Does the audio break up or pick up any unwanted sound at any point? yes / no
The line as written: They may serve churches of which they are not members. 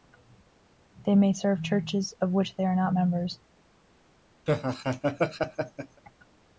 yes